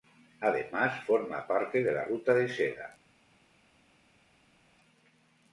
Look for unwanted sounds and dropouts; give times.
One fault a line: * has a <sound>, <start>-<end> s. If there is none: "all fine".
all fine